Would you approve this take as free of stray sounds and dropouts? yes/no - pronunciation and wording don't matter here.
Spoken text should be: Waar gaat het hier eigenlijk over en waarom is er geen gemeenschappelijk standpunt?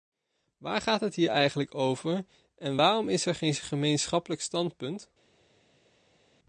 yes